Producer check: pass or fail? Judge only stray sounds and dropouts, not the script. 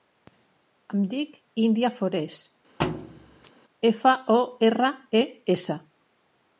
fail